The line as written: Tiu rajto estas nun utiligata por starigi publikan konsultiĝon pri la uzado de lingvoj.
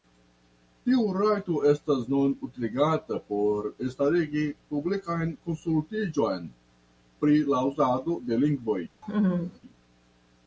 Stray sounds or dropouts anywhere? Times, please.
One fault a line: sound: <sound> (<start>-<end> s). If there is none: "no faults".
sound: laugh (9.0-9.6 s)